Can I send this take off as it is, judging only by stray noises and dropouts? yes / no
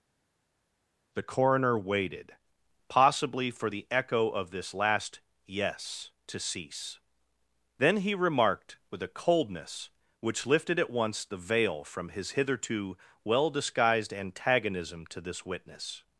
yes